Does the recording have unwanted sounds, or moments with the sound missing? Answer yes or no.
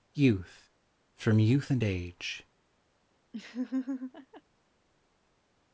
yes